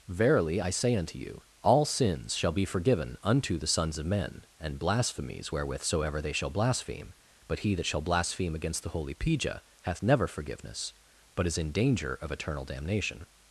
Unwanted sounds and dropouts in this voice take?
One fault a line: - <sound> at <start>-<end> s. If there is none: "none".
none